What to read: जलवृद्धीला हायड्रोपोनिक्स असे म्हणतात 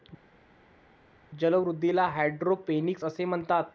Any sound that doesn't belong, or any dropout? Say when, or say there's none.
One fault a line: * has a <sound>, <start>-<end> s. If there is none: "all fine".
all fine